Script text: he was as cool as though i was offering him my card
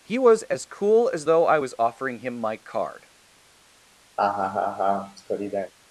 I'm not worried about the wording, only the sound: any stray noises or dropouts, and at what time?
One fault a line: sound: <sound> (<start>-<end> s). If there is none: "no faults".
sound: laugh (4.2-5.7 s)